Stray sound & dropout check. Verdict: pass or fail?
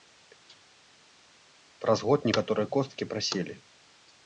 pass